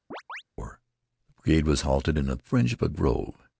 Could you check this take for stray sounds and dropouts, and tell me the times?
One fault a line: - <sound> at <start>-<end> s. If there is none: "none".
- chirp at 0.1-0.4 s